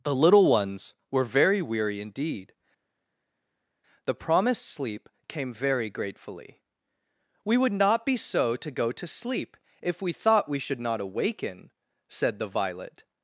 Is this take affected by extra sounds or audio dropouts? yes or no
no